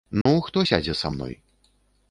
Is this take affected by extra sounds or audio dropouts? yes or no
yes